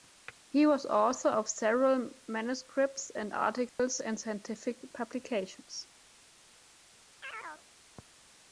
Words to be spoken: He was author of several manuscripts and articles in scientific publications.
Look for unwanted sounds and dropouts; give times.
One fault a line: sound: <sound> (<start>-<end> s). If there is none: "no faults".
sound: dropout (3.7-3.8 s)
sound: chirp (7.2-7.7 s)